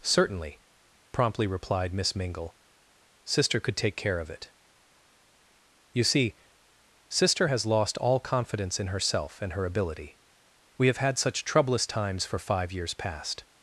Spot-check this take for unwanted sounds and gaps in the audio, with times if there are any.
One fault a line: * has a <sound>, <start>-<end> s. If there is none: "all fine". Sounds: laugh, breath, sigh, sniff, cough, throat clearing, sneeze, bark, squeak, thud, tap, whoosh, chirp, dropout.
all fine